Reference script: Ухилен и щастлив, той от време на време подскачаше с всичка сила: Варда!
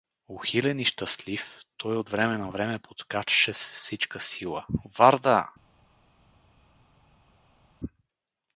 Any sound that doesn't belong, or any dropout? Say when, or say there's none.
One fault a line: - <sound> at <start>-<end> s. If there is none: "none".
none